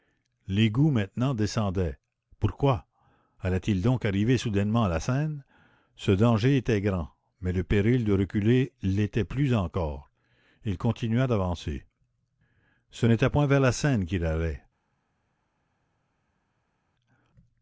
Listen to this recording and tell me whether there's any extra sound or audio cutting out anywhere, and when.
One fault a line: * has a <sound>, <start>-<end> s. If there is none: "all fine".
all fine